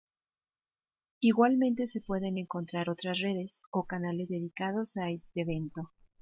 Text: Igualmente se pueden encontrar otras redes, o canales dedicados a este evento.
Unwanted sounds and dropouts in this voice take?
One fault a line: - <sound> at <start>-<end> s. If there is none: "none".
none